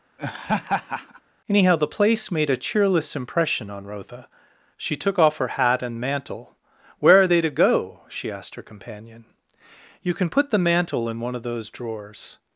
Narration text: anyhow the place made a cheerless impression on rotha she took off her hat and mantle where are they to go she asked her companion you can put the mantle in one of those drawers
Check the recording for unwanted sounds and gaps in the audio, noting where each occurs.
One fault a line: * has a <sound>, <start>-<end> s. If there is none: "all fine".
* has a laugh, 0.2-1.2 s